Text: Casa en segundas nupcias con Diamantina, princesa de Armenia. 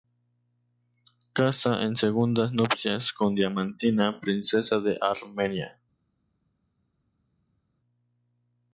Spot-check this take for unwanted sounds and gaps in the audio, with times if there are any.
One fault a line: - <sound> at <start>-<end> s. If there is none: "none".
none